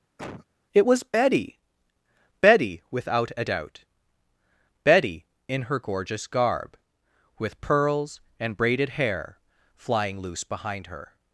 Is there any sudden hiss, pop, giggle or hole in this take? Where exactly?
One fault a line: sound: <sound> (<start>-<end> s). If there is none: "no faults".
sound: cough (0.2-0.5 s)